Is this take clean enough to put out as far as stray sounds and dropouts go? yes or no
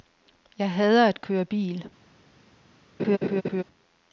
no